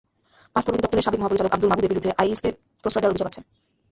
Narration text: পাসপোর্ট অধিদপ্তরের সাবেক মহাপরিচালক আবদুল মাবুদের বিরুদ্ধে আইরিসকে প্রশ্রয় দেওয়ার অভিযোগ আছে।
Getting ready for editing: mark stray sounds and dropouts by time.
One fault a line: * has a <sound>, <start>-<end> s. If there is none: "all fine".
all fine